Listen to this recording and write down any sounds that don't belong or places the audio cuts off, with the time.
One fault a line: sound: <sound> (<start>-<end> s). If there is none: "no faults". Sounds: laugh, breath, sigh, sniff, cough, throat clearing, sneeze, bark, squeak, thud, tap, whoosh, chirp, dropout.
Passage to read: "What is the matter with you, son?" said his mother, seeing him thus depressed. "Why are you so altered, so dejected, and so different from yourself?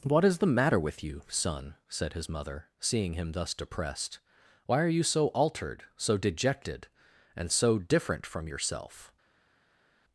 no faults